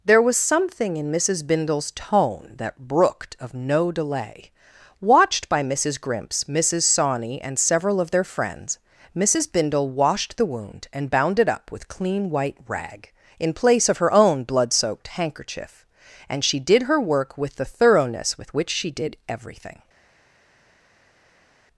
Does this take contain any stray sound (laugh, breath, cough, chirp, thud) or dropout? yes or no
no